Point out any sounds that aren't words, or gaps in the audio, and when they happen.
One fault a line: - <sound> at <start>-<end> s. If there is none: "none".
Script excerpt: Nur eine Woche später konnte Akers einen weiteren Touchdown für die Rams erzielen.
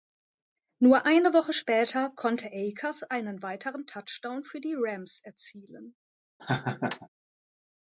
- laugh at 6.4-7.1 s